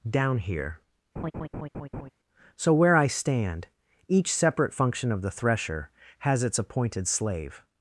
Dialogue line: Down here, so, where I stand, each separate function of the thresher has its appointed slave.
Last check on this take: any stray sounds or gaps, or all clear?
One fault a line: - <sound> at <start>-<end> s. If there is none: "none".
- laugh at 1.2-2.1 s